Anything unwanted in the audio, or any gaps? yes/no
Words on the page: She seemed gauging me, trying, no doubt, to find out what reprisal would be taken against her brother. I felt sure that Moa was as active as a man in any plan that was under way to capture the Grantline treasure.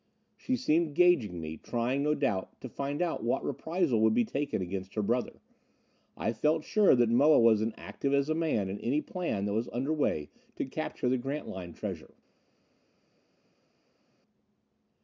no